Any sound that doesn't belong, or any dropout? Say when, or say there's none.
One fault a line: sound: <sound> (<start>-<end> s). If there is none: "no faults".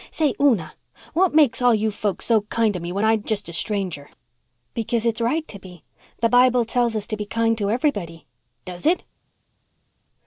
no faults